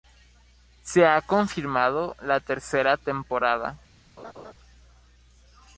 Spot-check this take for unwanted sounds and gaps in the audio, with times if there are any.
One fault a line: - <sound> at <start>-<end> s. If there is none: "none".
- laugh at 4.2-4.5 s